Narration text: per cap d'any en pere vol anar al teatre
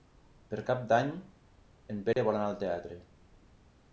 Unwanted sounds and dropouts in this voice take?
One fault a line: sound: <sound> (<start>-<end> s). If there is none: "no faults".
sound: dropout (2.1-2.2 s)